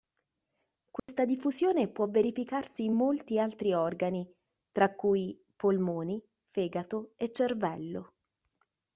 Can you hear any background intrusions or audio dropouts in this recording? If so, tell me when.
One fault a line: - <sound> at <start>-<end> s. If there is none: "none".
- dropout at 1.0-1.1 s